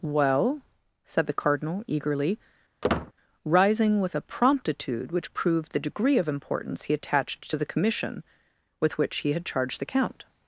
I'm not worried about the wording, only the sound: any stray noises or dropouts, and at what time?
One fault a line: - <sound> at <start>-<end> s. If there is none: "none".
- squeak at 2.8-3.1 s